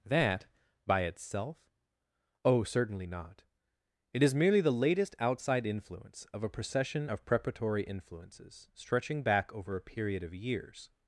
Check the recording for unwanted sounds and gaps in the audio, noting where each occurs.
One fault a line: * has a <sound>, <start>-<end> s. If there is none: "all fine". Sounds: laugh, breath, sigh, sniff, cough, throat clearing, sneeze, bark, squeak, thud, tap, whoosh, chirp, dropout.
all fine